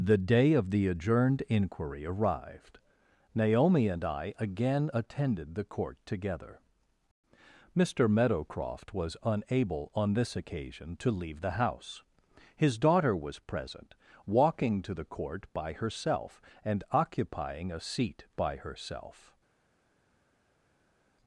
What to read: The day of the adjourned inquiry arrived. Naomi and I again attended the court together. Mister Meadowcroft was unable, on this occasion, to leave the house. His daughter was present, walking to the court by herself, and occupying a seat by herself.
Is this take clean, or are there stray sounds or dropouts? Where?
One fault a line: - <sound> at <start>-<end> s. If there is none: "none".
none